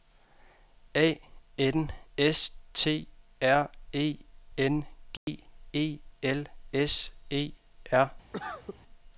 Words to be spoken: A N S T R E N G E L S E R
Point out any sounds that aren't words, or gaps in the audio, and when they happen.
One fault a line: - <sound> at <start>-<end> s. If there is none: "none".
- dropout at 5.2-5.3 s
- cough at 8.3-8.8 s